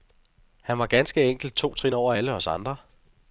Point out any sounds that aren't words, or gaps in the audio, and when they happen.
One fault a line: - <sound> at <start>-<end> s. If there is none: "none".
none